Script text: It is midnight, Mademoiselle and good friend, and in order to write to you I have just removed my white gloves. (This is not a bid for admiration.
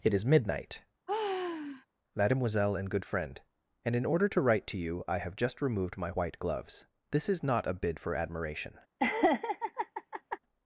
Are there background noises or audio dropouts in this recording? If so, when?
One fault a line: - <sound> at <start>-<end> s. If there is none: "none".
- sigh at 1.1-1.9 s
- laugh at 9.0-10.4 s